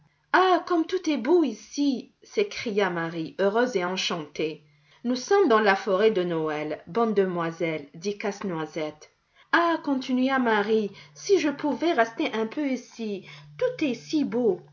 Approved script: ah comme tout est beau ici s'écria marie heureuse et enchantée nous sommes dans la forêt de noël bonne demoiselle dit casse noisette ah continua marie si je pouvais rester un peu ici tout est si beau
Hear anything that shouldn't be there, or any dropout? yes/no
no